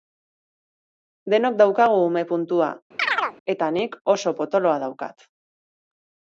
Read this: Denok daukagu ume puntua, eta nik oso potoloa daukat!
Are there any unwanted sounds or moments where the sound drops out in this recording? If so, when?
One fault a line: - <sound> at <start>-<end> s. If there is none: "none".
- chirp at 3.0-3.4 s